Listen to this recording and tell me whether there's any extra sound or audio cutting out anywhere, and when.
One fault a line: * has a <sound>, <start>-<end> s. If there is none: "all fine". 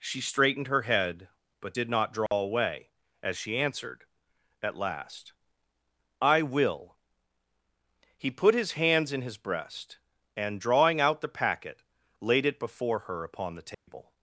* has a dropout, 2.3-2.3 s
* has a dropout, 13.7-13.9 s